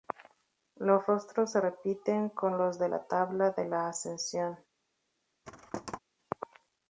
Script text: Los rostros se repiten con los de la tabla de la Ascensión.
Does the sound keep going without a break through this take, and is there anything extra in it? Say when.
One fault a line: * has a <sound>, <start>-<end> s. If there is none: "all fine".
* has a thud, 5.4-6.0 s